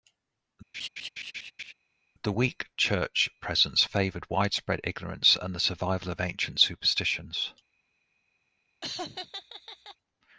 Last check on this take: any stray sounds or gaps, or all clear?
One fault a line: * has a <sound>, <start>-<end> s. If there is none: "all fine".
* has a laugh, 0.7-1.7 s
* has a laugh, 8.8-10.0 s